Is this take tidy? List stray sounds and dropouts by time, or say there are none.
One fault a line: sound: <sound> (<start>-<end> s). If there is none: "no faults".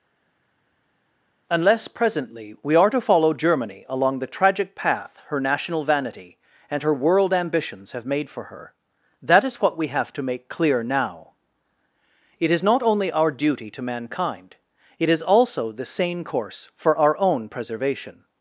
no faults